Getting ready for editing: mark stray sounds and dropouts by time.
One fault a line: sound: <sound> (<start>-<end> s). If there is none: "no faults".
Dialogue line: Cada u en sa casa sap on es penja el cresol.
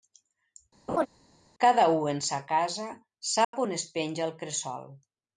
sound: laugh (0.9-1.1 s)
sound: dropout (3.4-3.5 s)